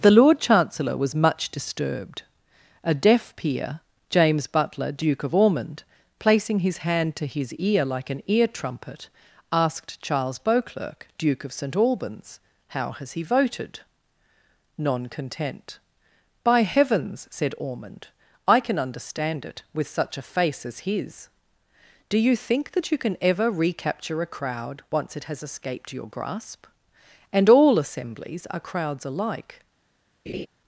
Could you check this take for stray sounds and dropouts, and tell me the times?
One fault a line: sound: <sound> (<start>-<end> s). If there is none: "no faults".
sound: laugh (30.3-30.5 s)